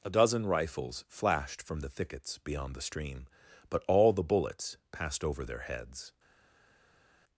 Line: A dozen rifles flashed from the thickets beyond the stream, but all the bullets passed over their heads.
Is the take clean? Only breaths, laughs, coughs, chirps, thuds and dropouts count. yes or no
yes